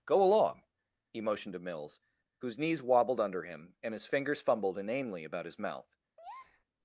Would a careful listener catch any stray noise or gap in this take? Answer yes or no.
yes